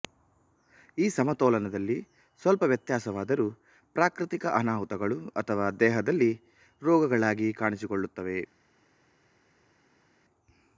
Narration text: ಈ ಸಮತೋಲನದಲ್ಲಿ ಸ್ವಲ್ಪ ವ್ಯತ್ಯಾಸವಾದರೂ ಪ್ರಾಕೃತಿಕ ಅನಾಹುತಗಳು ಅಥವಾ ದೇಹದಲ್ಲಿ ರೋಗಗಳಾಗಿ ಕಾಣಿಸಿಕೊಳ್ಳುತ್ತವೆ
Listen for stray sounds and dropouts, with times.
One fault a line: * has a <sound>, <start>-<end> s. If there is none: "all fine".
all fine